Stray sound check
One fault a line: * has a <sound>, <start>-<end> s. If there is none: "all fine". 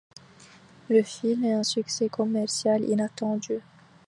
all fine